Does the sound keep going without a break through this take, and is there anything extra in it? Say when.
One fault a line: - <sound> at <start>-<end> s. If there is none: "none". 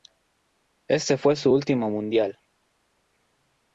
none